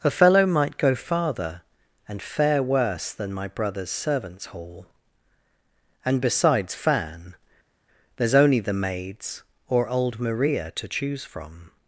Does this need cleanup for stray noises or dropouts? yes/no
no